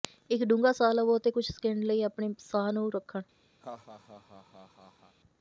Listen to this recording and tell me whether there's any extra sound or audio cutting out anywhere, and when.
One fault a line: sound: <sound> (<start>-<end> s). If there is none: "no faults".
sound: laugh (3.6-5.2 s)